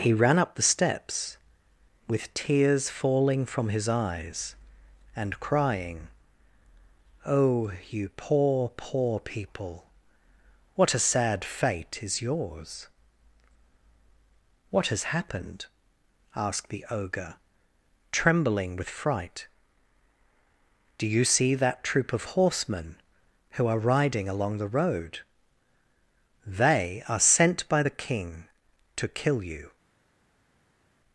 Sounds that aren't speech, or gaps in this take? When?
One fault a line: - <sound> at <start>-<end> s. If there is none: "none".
none